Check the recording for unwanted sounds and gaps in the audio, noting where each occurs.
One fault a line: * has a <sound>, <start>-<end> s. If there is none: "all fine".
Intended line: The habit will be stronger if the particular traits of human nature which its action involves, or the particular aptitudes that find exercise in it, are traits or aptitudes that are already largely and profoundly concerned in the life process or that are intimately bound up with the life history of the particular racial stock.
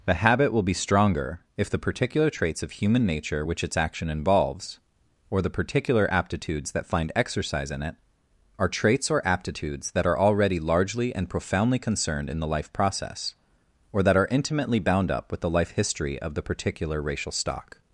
all fine